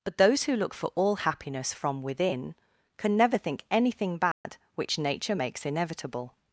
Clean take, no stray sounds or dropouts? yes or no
no